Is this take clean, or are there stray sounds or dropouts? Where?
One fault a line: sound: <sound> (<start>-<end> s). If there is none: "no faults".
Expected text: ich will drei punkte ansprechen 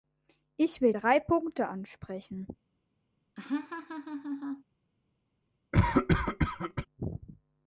sound: laugh (3.4-4.6 s)
sound: cough (5.7-6.9 s)